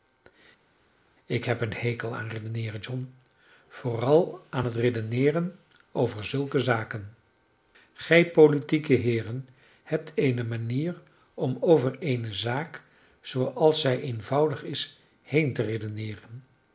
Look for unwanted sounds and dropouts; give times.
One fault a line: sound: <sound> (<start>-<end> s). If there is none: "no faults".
no faults